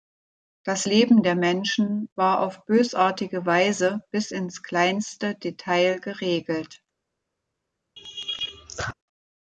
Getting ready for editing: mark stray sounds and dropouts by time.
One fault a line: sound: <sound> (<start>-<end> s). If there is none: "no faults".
sound: laugh (8.0-8.9 s)